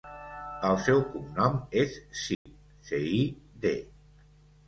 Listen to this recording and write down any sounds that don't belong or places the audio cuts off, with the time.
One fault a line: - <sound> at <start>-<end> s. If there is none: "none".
- dropout at 2.3-2.5 s